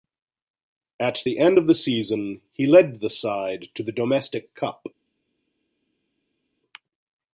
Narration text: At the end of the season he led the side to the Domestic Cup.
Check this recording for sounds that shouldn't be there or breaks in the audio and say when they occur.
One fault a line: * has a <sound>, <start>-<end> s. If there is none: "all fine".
all fine